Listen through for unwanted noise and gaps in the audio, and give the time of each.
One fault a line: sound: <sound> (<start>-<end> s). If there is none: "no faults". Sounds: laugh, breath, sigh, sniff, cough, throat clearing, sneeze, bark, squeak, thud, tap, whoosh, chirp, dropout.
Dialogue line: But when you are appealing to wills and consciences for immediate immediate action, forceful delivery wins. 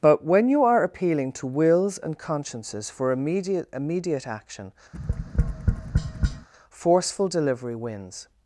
sound: tap (4.9-6.5 s)